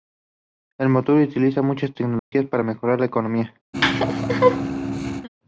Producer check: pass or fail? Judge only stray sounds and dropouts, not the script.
fail